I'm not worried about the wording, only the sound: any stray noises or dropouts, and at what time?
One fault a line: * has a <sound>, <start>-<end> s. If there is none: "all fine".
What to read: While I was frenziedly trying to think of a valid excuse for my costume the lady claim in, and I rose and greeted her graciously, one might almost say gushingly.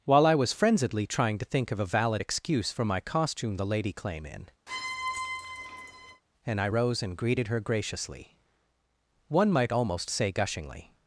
* has a squeak, 4.7-6.2 s